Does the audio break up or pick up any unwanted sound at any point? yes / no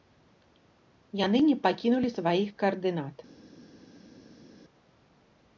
no